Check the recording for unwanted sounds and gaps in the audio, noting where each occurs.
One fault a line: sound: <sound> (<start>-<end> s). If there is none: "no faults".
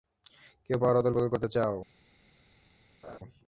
sound: laugh (3.0-3.2 s)